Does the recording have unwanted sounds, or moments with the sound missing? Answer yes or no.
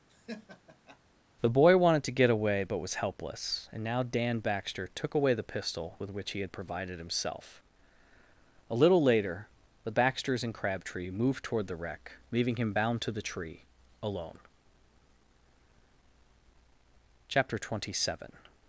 yes